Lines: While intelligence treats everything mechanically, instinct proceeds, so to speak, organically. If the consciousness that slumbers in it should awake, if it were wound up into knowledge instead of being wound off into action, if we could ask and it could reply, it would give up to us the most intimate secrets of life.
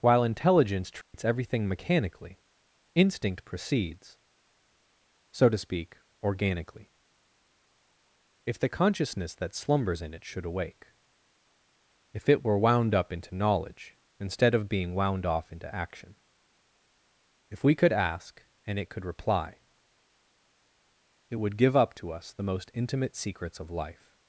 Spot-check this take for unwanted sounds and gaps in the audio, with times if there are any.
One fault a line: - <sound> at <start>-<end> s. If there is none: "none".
- dropout at 1.0-1.1 s